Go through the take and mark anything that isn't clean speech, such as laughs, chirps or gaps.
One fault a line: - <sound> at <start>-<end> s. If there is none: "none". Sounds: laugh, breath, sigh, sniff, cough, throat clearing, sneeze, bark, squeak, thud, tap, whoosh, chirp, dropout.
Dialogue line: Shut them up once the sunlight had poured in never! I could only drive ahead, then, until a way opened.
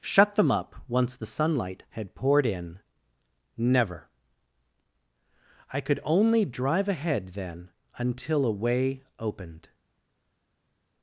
none